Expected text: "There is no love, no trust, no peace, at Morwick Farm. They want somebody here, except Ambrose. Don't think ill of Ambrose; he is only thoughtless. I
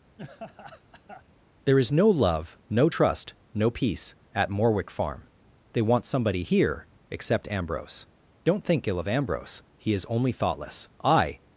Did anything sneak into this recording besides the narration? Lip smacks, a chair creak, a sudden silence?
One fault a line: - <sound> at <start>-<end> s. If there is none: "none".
- laugh at 0.2-1.2 s